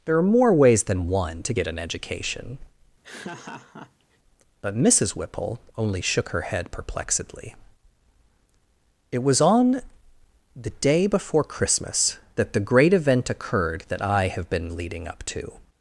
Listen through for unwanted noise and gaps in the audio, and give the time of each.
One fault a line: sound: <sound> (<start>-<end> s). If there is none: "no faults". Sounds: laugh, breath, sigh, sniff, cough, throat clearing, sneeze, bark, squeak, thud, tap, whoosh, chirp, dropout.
sound: laugh (3.0-4.2 s)